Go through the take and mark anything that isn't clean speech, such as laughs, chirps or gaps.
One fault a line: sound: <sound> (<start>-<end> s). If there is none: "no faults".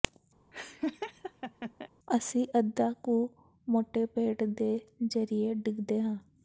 sound: laugh (0.5-1.9 s)